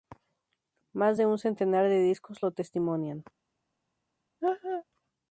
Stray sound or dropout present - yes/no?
yes